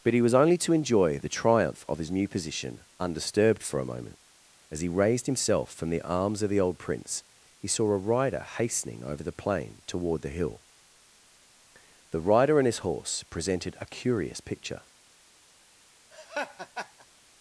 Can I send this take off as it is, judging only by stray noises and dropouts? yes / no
no